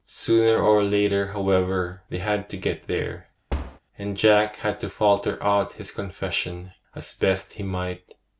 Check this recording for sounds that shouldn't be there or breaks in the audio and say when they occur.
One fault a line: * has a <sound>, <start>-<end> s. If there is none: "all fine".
* has a thud, 3.5-3.8 s